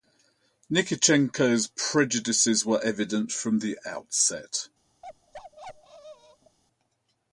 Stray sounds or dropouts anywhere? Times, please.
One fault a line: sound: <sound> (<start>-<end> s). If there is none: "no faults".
sound: bark (5.0-6.6 s)